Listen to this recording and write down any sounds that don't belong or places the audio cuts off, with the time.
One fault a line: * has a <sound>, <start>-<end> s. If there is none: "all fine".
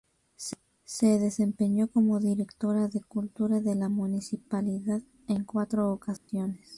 * has a dropout, 6.2-6.3 s